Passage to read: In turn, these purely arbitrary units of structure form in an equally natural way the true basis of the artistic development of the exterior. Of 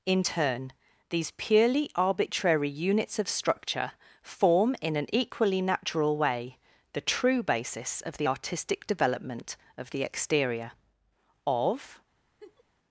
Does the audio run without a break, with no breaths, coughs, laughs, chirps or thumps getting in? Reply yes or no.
no